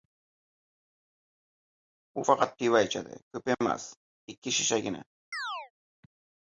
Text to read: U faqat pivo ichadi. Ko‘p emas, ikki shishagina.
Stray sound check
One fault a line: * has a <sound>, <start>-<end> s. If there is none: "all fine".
* has a chirp, 5.3-5.7 s